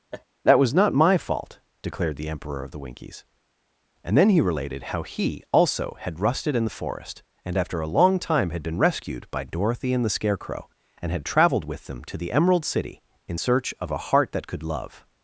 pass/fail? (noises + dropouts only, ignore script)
fail